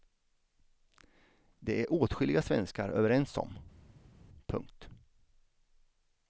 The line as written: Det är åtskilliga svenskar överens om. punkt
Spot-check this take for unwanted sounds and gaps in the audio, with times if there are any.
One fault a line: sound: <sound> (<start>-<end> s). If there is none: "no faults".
no faults